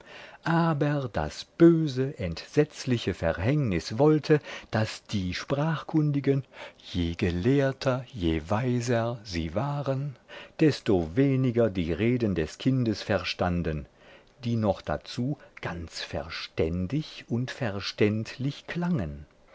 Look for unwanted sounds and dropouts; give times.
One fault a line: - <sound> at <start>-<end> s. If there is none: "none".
none